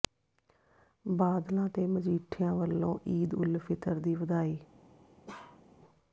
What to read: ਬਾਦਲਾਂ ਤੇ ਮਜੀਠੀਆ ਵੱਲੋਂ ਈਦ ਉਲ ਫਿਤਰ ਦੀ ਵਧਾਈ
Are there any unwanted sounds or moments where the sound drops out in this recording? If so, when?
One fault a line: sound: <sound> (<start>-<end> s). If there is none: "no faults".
sound: bark (5.3-5.6 s)